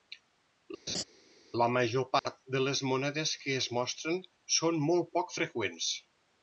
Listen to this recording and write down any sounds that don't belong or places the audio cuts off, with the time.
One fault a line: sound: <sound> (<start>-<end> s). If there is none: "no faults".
sound: laugh (0.9-1.0 s)
sound: dropout (2.2-2.3 s)